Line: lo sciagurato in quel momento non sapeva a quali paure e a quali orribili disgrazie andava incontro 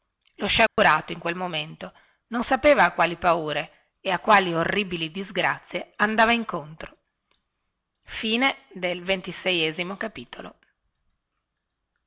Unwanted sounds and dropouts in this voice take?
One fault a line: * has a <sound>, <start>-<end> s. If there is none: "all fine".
* has a dropout, 0.7-0.8 s